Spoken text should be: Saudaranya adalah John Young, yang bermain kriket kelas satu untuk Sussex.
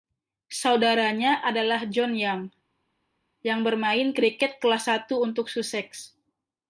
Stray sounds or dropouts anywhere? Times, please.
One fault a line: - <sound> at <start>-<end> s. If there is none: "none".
none